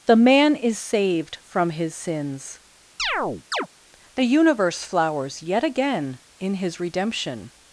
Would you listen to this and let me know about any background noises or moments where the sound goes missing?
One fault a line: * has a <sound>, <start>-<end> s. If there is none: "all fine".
* has a chirp, 3.0-3.7 s